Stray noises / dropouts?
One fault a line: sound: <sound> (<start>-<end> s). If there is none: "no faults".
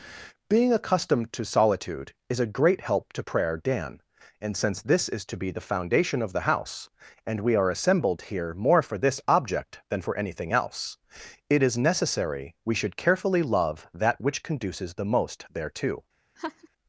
sound: laugh (16.4-16.7 s)